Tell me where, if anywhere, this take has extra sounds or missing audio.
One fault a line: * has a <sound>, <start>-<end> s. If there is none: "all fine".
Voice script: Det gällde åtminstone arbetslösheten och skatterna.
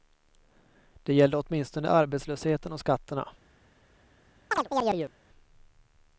* has a chirp, 4.5-5.1 s